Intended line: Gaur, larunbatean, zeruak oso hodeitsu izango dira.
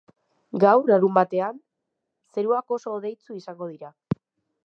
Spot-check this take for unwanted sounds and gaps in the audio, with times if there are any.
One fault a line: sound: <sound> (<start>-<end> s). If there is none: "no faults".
no faults